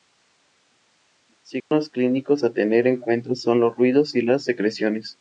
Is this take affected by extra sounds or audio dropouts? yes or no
yes